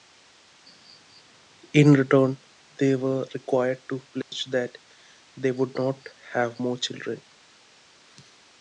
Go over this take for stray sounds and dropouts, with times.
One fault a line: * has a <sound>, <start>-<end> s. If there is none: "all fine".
* has a dropout, 4.2-4.3 s